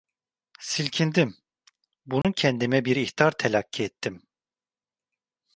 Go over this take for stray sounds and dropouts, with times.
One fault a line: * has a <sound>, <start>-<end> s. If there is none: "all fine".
* has a dropout, 2.2-2.2 s